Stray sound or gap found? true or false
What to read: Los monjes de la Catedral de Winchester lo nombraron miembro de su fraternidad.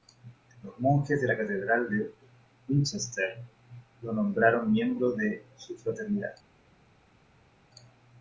false